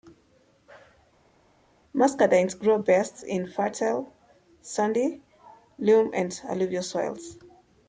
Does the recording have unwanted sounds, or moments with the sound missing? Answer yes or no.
no